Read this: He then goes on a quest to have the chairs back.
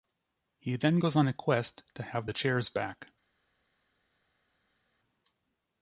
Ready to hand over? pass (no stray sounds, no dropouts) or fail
pass